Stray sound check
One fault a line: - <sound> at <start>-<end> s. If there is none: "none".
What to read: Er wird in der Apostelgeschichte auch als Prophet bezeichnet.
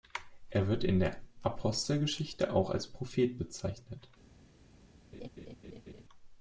- laugh at 5.1-6.0 s